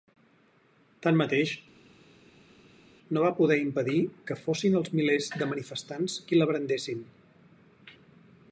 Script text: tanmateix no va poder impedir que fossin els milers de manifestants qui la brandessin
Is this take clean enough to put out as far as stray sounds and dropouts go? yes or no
yes